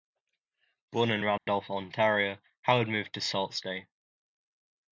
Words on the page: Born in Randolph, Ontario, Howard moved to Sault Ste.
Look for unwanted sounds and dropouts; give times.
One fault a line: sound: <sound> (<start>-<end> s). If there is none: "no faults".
sound: dropout (1.4-1.5 s)